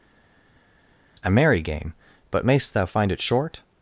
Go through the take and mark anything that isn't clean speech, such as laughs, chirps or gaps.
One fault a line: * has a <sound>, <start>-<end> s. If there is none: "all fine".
all fine